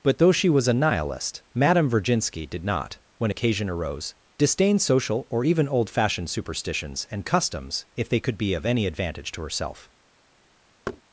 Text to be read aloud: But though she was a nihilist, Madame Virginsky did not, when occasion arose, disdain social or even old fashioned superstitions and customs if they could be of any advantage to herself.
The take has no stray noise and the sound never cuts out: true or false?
false